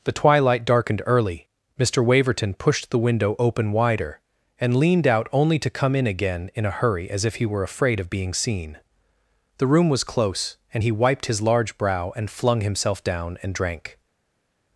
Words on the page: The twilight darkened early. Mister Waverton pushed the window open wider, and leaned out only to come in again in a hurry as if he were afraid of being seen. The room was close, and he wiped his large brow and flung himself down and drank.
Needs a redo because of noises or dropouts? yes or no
no